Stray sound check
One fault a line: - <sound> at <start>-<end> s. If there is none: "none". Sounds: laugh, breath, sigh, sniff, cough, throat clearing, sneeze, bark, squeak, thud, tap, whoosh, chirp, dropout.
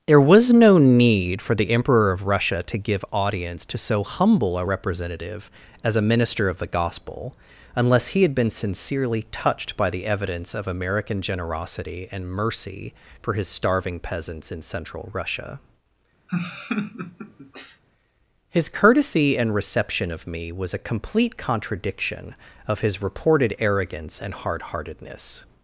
- laugh at 16.3-17.8 s